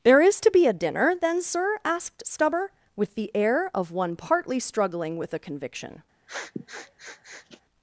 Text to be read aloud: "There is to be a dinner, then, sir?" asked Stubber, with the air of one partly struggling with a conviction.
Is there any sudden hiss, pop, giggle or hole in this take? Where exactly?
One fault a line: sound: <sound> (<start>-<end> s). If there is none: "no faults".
sound: sniff (6.3-7.6 s)